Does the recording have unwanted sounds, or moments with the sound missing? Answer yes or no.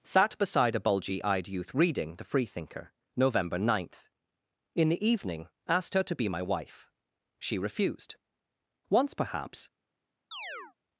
yes